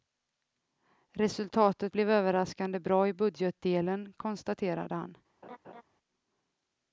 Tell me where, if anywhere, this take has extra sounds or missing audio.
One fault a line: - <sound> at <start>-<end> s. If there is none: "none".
- laugh at 5.4-5.8 s